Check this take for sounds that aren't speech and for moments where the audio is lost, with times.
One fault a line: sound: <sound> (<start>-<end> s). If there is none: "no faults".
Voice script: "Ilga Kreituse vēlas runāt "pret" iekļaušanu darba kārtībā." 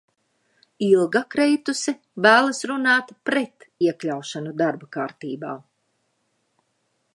no faults